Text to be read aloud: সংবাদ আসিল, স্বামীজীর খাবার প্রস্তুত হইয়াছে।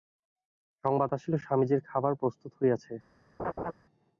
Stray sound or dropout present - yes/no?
yes